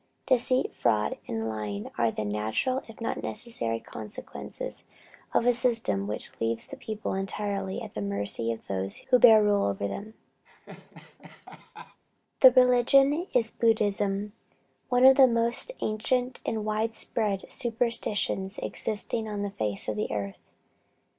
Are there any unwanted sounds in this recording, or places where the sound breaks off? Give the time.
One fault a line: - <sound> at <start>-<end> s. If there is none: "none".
- laugh at 10.5-12.0 s